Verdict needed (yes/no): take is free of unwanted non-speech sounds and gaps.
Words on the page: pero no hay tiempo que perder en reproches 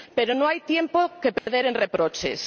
no